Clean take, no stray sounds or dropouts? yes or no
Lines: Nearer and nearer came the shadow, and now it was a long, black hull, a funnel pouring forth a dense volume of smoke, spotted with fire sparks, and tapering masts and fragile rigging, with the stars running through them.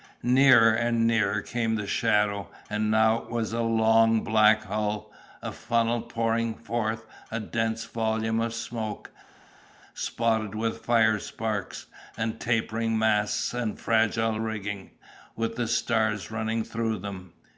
yes